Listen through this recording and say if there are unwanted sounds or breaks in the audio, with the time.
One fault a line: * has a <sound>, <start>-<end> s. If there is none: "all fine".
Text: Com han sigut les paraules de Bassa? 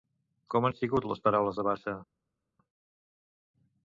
all fine